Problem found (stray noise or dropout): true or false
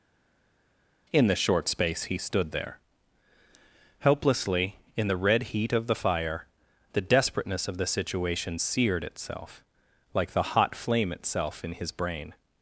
false